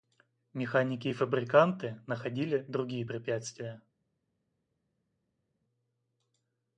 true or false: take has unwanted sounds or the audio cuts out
false